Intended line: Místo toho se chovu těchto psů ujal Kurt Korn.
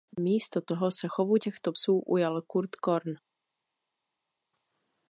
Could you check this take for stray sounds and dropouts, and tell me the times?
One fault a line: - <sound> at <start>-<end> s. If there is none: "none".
none